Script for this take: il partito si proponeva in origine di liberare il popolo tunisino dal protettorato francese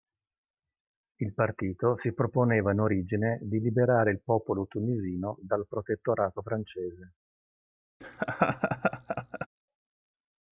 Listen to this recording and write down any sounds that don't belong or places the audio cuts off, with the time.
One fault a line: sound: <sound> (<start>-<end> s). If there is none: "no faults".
sound: laugh (8.0-9.5 s)